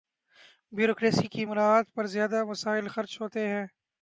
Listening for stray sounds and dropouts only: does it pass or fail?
pass